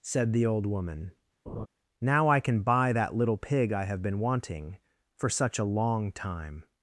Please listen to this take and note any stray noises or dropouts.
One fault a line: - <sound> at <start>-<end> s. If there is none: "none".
- laugh at 1.5-1.7 s